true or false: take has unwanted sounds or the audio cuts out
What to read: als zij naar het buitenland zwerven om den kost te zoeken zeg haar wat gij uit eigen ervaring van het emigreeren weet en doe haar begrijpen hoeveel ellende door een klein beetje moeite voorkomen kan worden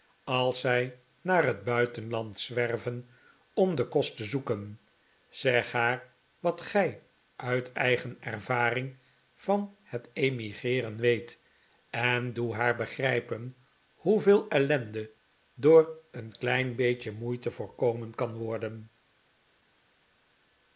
false